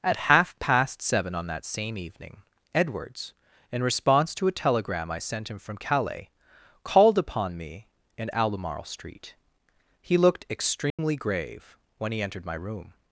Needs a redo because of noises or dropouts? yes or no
yes